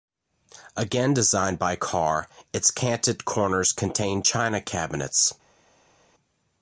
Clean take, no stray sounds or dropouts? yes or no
yes